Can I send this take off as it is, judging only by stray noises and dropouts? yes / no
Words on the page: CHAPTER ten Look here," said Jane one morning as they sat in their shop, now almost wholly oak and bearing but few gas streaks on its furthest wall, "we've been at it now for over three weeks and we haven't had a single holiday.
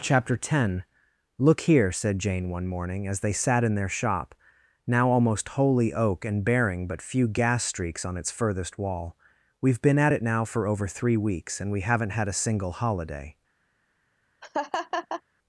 no